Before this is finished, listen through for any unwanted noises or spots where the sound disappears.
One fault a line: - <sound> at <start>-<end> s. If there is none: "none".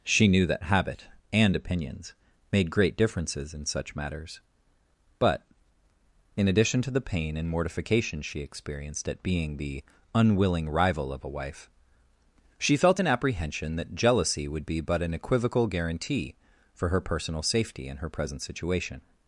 none